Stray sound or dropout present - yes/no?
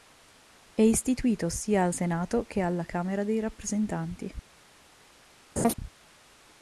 yes